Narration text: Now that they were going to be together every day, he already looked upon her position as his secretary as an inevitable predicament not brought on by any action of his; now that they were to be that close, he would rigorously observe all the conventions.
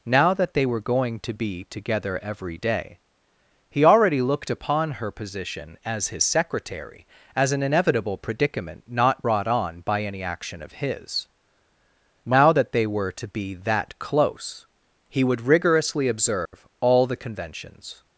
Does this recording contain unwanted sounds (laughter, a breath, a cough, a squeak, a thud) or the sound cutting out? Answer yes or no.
yes